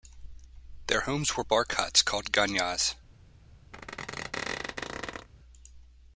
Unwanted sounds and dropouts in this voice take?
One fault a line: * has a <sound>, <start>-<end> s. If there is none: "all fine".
* has a squeak, 3.7-5.3 s